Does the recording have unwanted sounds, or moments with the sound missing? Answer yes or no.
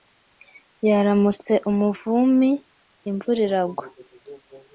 no